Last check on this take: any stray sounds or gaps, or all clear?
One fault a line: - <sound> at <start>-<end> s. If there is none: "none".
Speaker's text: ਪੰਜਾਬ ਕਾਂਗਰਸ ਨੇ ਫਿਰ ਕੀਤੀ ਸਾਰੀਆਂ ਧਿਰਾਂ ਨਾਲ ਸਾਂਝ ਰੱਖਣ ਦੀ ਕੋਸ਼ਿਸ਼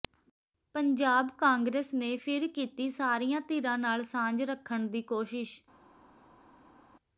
none